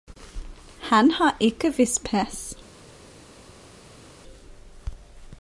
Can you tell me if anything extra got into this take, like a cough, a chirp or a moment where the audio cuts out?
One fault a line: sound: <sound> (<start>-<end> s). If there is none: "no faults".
no faults